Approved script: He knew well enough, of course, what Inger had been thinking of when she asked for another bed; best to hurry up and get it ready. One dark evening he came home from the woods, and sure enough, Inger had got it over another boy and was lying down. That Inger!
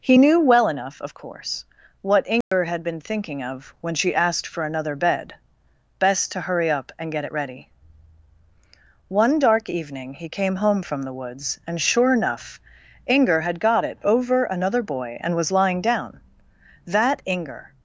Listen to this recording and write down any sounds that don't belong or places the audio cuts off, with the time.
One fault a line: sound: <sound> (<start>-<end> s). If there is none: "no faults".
sound: dropout (2.4-2.5 s)